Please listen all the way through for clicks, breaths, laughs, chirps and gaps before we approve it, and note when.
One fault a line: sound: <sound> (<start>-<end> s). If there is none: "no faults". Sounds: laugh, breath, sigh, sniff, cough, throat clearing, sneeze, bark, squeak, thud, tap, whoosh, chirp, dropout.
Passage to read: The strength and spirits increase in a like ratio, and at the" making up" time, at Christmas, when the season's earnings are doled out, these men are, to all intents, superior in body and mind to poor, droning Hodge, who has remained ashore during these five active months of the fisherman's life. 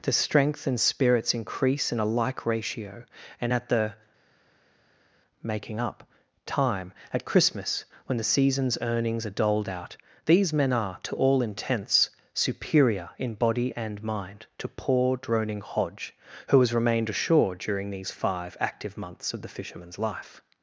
no faults